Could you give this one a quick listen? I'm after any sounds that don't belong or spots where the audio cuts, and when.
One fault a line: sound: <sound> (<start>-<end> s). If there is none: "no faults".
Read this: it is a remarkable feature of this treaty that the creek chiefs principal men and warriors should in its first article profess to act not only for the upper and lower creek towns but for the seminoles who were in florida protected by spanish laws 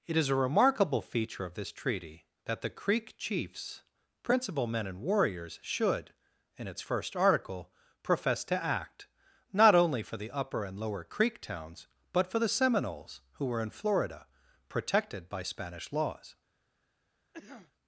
sound: cough (17.3-17.7 s)